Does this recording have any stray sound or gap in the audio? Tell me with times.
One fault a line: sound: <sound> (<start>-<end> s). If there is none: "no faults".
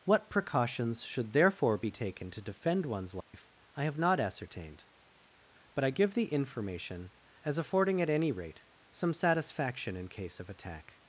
sound: dropout (3.2-3.3 s)